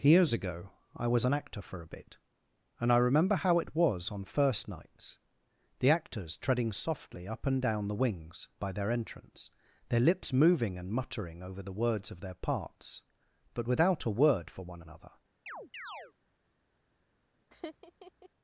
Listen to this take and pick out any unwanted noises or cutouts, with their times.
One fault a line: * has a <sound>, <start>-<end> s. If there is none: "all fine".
* has a chirp, 15.5-16.1 s
* has a laugh, 17.5-18.3 s